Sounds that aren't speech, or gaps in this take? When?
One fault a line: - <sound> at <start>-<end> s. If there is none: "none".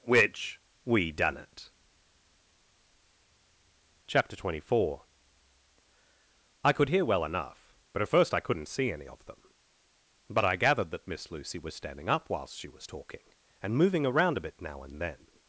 none